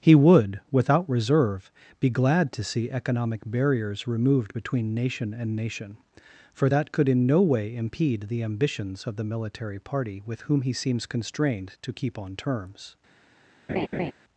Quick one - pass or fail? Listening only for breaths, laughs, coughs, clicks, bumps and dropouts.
fail